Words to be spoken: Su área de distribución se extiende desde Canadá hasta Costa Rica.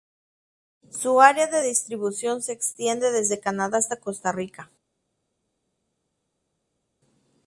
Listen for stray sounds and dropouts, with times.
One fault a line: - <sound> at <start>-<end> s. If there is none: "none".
none